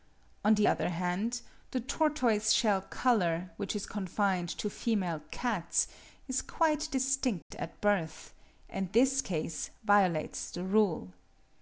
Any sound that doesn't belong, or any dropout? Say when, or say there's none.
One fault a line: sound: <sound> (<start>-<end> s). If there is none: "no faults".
sound: dropout (7.4-7.5 s)